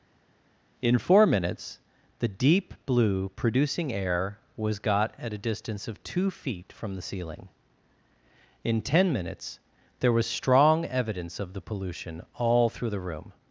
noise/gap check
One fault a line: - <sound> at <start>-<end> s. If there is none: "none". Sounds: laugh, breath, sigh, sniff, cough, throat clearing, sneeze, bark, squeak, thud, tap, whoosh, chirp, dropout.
none